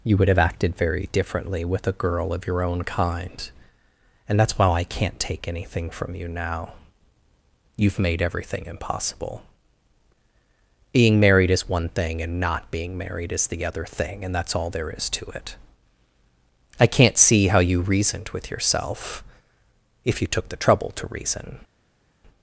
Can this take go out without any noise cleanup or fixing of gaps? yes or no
yes